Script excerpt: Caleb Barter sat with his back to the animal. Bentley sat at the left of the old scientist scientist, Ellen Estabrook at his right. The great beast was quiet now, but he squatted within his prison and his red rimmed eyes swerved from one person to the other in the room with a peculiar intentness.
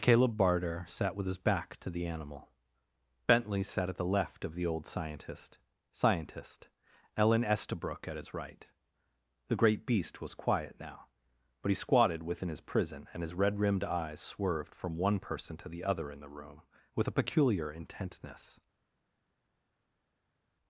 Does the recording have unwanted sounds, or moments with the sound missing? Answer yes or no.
no